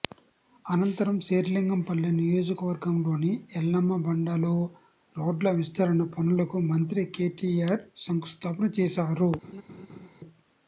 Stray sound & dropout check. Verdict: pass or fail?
fail